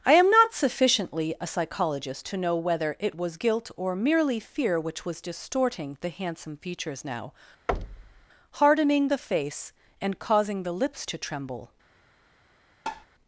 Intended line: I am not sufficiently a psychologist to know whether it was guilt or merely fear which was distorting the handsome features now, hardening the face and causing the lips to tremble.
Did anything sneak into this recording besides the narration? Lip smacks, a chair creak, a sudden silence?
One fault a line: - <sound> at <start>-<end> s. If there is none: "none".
- thud at 7.7-8.3 s
- tap at 12.9-13.1 s